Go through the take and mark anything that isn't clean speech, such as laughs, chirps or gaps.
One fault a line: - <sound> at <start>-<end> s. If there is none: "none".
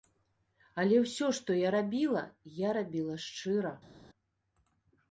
none